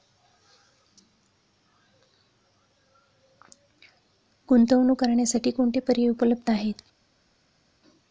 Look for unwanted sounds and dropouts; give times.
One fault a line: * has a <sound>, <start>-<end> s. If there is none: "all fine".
all fine